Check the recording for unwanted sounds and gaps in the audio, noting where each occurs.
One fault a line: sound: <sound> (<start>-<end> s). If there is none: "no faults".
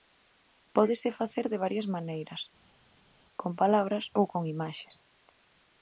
no faults